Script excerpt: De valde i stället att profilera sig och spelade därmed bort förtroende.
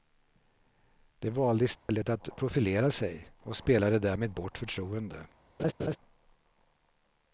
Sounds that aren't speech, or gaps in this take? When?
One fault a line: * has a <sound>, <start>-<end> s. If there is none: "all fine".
* has a dropout, 1.8-1.9 s
* has a laugh, 5.6-6.0 s